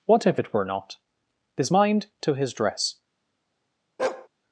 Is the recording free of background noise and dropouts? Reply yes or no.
no